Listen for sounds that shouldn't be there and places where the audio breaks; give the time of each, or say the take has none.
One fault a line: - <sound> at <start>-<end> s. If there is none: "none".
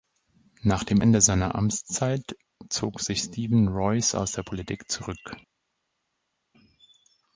none